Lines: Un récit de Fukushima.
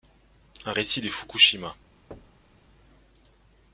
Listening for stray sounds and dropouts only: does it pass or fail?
fail